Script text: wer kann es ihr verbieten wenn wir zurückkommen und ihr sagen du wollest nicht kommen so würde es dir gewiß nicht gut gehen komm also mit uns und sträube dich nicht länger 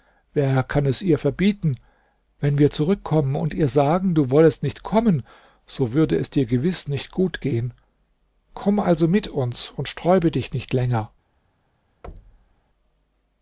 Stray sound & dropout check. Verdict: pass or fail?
fail